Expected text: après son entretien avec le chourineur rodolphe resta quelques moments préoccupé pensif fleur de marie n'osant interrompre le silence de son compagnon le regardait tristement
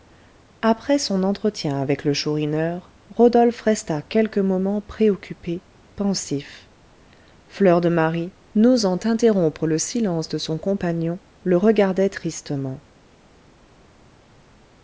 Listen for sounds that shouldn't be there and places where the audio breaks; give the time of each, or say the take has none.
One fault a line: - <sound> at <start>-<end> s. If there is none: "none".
none